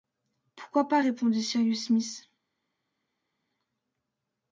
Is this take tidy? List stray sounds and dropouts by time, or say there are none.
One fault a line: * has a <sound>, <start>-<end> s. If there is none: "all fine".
all fine